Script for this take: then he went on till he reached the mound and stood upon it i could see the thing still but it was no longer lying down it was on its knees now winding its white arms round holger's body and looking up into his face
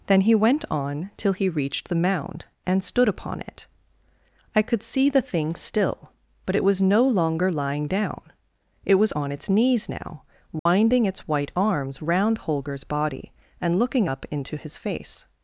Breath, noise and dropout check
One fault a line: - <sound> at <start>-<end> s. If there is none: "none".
- dropout at 10.6-10.7 s